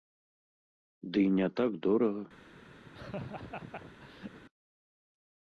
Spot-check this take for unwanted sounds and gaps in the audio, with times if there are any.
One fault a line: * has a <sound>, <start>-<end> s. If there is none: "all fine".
* has a laugh, 2.8-4.4 s